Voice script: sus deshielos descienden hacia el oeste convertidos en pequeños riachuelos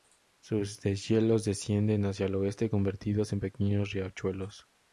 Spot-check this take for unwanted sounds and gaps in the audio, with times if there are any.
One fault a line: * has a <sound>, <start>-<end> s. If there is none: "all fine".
all fine